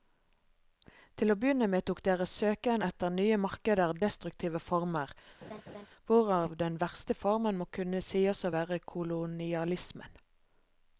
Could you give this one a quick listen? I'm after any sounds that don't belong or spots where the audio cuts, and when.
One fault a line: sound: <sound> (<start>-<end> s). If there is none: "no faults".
sound: laugh (5.4-5.9 s)